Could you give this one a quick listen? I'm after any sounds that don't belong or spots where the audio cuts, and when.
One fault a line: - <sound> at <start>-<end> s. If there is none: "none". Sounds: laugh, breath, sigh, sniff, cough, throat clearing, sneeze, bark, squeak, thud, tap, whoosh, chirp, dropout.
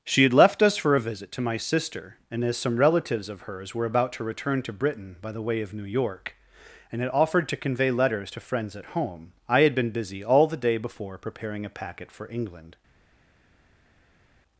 none